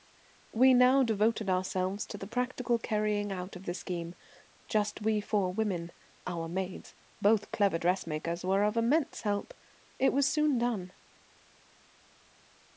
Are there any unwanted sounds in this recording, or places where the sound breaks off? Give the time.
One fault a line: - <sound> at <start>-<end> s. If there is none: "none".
none